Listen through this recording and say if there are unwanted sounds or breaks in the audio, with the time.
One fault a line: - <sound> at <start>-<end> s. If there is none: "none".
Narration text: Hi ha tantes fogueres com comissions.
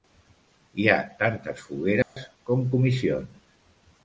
- dropout at 2.0-2.2 s